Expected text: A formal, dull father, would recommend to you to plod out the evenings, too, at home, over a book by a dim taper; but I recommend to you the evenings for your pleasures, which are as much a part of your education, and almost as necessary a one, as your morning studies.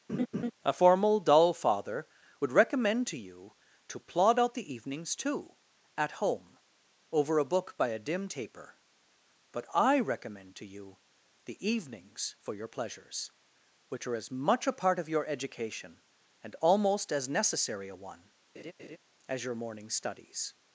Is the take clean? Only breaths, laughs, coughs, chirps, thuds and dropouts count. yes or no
no